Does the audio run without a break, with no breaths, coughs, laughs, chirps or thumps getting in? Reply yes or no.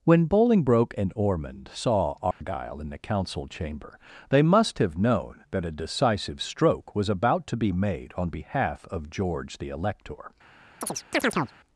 no